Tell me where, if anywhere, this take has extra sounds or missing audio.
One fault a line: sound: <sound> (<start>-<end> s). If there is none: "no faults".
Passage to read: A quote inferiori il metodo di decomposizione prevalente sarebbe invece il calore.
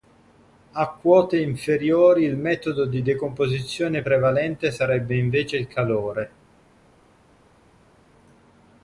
no faults